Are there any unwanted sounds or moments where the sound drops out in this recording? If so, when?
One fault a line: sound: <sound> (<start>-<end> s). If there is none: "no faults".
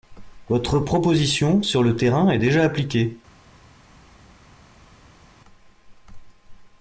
no faults